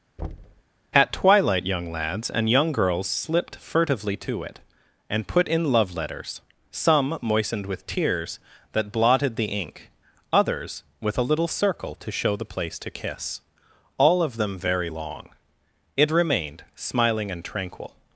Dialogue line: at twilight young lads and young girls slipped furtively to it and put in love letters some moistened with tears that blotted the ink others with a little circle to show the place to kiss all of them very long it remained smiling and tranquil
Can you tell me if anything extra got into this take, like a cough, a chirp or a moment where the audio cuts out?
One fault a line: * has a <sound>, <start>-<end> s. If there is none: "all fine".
* has a thud, 0.2-0.6 s